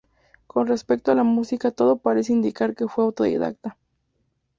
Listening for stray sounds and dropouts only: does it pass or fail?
pass